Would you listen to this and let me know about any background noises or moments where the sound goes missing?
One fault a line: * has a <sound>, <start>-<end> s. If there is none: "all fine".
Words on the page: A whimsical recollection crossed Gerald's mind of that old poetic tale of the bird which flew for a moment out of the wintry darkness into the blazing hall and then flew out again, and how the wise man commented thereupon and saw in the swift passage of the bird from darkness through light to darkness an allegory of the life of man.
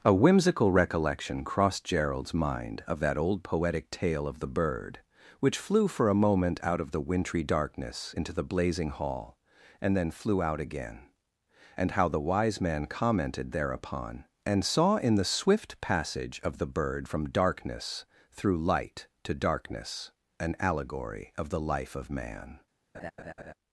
* has a laugh, 22.9-23.5 s